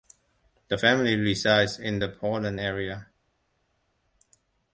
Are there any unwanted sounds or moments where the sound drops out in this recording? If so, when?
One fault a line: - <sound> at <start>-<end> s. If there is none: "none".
none